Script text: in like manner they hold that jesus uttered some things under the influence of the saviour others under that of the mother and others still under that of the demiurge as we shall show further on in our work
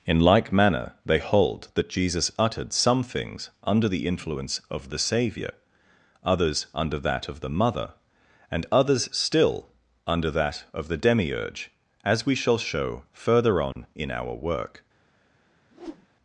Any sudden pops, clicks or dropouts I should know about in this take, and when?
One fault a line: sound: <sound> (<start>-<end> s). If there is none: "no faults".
sound: dropout (13.7-13.8 s)
sound: whoosh (15.7-16.1 s)